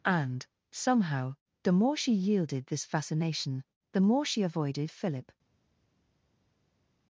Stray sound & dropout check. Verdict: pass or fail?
pass